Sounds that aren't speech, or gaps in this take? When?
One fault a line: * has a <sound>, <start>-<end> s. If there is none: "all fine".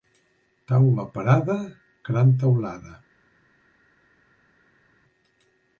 all fine